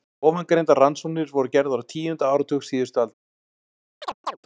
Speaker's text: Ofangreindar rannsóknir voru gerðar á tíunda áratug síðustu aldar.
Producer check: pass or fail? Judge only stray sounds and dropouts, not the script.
fail